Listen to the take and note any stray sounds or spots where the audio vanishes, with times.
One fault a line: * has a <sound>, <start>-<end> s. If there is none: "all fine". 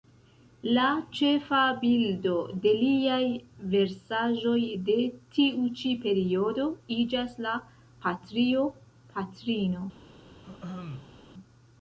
* has a throat clearing, 10.4-11.2 s